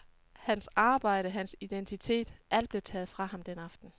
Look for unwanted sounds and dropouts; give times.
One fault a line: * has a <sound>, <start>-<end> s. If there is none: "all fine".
all fine